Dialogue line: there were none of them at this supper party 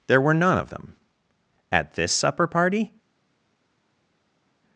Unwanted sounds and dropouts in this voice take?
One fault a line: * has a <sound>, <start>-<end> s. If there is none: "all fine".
all fine